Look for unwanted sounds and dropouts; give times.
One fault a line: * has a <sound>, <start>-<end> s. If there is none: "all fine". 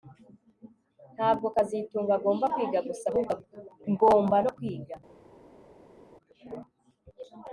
all fine